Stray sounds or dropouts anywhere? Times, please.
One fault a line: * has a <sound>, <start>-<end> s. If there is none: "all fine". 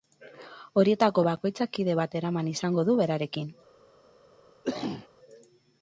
* has a cough, 4.6-5.1 s